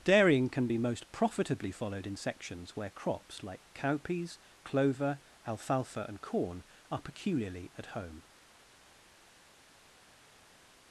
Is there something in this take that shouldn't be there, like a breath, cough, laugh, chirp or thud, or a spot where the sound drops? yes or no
no